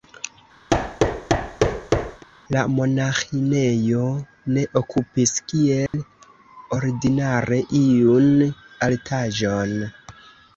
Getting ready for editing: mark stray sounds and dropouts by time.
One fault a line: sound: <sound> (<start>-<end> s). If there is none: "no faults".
sound: thud (0.7-2.2 s)
sound: dropout (5.9-5.9 s)